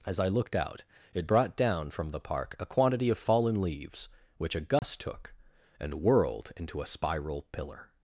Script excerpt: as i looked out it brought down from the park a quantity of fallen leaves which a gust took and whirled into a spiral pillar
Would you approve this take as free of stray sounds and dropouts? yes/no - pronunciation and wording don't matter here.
no